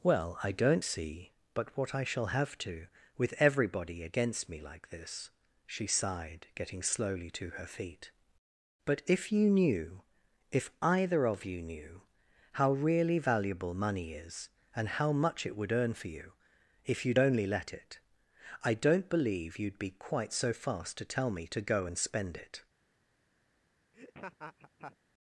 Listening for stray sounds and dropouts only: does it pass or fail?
fail